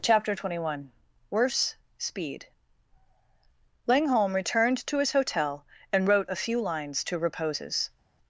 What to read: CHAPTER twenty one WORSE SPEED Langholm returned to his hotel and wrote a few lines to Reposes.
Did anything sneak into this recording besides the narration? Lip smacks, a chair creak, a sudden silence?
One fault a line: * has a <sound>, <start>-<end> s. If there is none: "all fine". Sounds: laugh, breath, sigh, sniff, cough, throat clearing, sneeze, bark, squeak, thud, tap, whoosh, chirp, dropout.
all fine